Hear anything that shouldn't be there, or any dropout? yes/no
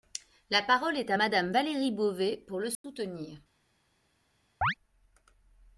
yes